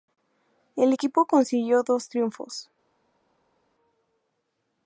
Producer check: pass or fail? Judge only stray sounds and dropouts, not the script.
pass